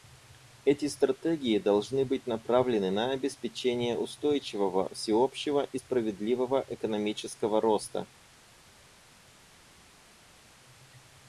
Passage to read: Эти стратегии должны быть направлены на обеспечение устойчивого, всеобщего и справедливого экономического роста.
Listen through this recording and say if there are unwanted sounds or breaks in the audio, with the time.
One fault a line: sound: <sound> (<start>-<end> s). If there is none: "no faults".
no faults